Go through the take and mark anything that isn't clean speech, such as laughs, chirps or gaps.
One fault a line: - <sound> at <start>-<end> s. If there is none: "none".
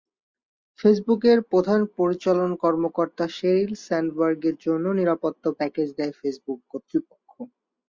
none